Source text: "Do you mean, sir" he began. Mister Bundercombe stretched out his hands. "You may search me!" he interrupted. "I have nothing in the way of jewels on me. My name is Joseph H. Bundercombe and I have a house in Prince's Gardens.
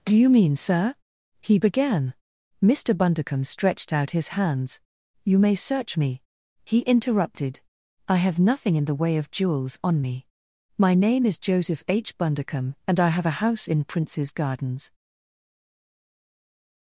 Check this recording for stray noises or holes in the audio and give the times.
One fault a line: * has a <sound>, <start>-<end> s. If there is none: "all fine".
all fine